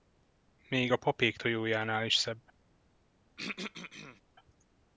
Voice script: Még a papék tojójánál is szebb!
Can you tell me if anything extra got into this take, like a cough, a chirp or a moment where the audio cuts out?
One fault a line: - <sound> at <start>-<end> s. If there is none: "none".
- throat clearing at 3.4-4.2 s